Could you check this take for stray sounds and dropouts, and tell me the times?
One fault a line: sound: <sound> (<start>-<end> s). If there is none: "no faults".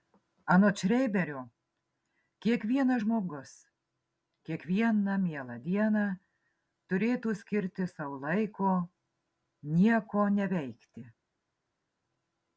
no faults